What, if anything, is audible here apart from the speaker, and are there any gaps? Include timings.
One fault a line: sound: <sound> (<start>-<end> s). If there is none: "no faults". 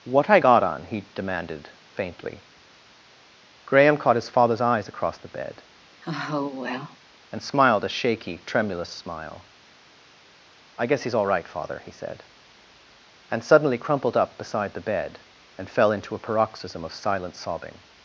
sound: sigh (6.0-7.0 s)